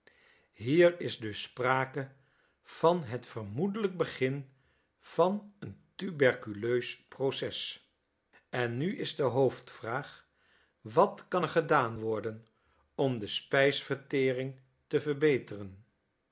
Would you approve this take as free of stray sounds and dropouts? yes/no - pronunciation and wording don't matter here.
yes